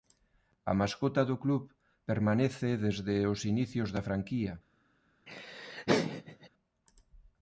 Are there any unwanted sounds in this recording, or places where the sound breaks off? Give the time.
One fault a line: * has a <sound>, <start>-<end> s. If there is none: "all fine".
* has a laugh, 5.3-6.5 s